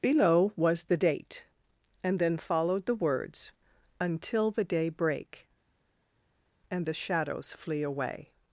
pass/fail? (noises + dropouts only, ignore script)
pass